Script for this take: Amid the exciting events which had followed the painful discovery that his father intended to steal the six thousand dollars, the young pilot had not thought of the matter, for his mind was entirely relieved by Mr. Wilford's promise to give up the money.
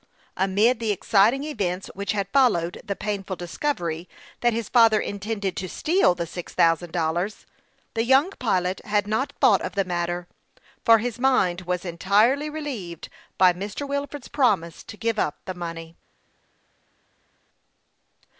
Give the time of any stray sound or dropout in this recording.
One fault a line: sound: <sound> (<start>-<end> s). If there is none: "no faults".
no faults